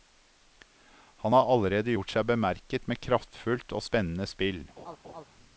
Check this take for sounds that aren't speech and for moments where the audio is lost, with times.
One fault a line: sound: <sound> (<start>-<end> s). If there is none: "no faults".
sound: laugh (4.8-5.2 s)